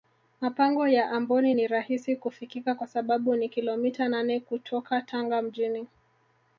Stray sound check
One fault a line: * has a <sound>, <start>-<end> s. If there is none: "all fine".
all fine